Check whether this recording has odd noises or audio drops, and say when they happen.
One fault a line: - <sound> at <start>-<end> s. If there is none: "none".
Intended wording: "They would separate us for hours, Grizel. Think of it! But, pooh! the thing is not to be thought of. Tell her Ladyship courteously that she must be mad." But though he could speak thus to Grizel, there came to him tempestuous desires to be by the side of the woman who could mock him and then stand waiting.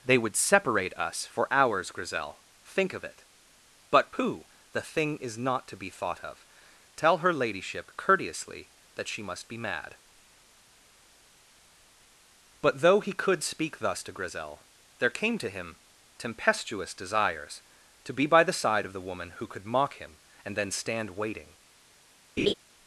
- laugh at 22.4-22.5 s